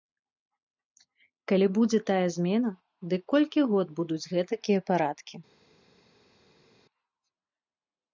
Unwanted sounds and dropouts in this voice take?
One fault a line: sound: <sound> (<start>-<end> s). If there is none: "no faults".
no faults